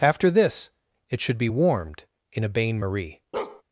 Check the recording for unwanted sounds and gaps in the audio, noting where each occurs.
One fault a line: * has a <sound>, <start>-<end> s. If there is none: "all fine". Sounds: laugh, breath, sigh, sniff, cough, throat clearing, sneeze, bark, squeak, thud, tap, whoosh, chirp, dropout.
* has a bark, 3.3-3.6 s